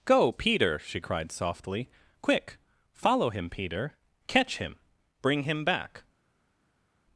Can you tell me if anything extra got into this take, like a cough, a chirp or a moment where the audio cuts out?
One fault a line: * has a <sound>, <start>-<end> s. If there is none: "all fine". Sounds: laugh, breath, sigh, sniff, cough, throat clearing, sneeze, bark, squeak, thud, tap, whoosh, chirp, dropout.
all fine